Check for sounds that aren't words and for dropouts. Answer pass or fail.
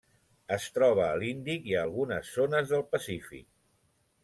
pass